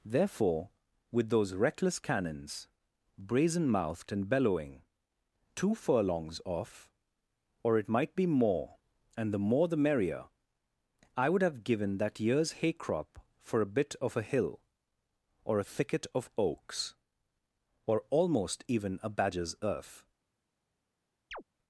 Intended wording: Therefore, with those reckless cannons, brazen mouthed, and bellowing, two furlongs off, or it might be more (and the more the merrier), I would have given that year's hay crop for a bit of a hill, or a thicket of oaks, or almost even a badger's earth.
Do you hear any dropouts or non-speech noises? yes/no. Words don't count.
yes